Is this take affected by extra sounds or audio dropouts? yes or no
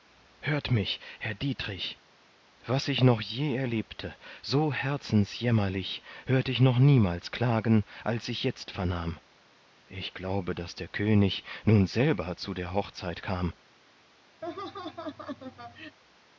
yes